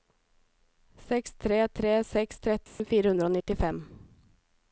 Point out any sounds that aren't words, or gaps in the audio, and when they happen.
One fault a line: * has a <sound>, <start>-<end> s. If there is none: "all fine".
* has a dropout, 2.7-2.8 s